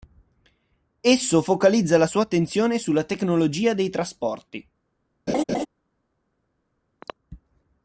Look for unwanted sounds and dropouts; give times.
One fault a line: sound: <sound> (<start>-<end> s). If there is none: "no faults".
sound: laugh (5.3-5.7 s)
sound: throat clearing (7.0-7.1 s)